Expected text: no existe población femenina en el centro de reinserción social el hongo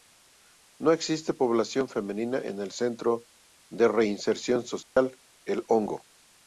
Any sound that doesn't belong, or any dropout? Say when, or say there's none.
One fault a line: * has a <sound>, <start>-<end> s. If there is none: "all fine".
* has a dropout, 4.8-5.0 s